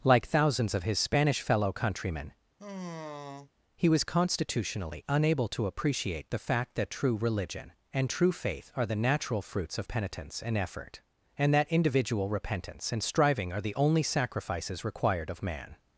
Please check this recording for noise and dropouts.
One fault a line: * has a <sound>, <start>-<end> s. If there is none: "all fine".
* has a sigh, 2.6-3.5 s